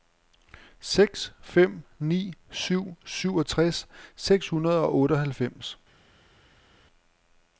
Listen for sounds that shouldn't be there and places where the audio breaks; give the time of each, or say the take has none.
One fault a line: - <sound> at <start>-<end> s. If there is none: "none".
none